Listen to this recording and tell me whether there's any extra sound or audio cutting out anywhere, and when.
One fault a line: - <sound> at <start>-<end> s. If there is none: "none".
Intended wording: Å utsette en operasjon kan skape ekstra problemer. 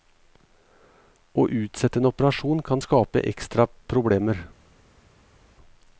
none